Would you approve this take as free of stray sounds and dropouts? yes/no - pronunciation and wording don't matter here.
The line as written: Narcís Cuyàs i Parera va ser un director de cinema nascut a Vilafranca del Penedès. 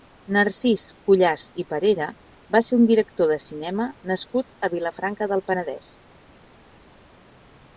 yes